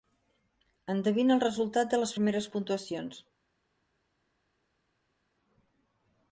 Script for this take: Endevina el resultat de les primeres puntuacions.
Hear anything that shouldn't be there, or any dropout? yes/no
no